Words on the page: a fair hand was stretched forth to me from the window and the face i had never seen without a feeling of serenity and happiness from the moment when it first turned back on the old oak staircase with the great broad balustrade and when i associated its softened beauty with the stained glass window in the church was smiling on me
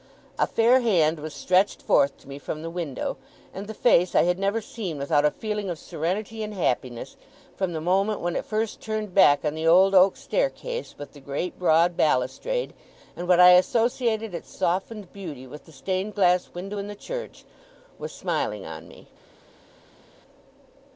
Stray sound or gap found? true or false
false